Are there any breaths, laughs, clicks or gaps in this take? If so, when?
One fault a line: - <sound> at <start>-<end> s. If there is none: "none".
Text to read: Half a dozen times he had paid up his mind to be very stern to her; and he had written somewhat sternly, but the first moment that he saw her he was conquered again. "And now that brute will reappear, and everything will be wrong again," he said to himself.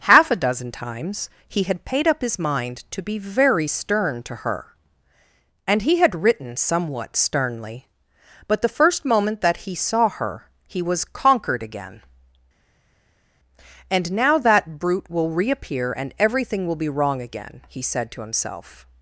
none